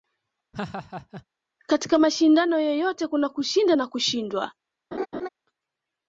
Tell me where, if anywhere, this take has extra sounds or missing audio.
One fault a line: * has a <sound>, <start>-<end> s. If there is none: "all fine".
* has a laugh, 0.5-1.3 s
* has a laugh, 4.9-5.3 s